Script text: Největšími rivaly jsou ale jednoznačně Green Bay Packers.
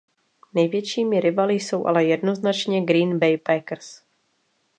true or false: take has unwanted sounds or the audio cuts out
false